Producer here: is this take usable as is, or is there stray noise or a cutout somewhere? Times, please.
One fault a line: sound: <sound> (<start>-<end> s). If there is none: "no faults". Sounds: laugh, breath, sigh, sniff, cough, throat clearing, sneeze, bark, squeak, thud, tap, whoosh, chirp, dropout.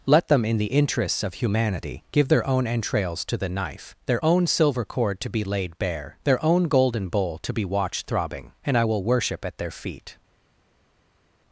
no faults